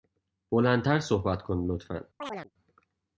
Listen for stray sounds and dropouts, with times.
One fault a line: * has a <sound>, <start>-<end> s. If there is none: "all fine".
* has a chirp, 2.2-2.5 s